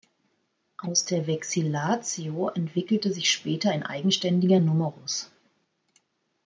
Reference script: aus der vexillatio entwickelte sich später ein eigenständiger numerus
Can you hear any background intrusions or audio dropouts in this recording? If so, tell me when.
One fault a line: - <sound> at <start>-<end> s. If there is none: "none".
none